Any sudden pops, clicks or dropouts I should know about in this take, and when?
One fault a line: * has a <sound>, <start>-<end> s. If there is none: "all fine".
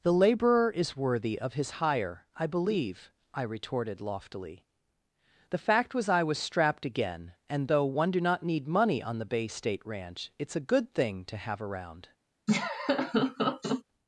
* has a laugh, 12.5-13.8 s